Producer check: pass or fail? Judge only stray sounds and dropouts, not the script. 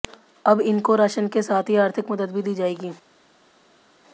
pass